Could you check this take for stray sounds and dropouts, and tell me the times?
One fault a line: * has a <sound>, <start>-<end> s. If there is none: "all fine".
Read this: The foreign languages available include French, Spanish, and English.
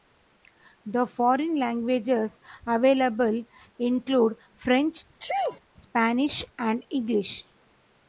* has a sneeze, 5.2-5.6 s